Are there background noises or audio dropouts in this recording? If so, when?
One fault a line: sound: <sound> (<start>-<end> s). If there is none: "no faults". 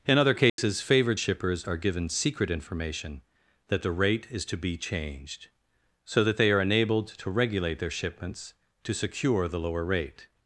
sound: dropout (0.5-0.6 s)